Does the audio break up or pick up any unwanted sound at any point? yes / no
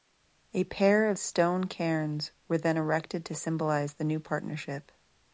no